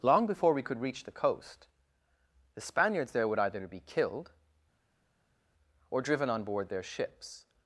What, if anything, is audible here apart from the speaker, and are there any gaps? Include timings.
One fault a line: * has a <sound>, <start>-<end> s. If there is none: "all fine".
all fine